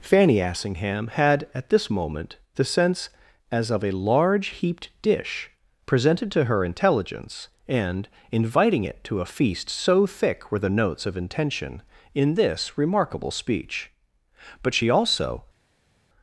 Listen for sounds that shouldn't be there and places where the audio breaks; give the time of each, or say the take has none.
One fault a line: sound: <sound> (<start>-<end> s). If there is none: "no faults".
no faults